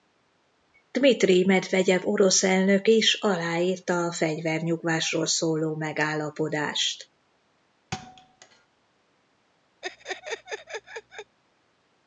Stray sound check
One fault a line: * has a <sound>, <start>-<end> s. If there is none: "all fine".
* has a thud, 7.9-8.7 s
* has a laugh, 9.8-11.4 s